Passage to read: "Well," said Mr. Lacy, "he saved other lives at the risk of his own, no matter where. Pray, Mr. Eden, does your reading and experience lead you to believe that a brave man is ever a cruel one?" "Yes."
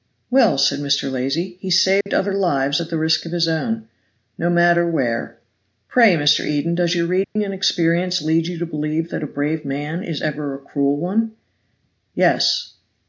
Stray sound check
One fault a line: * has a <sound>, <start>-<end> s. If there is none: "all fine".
* has a dropout, 2.0-2.1 s
* has a dropout, 7.2-7.4 s